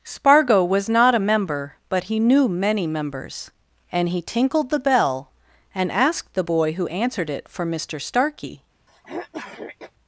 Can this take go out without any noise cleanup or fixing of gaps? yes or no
no